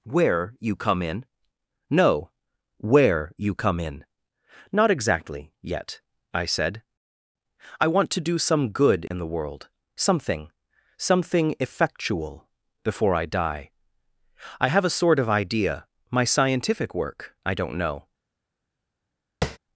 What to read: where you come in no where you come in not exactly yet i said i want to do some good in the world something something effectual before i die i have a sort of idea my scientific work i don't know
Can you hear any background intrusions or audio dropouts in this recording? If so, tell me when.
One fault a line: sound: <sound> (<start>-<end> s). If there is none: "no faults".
sound: dropout (9.1-9.1 s)
sound: tap (19.4-19.6 s)